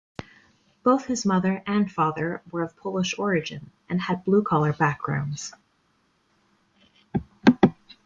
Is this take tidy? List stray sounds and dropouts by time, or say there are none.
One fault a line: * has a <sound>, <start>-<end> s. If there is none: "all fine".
all fine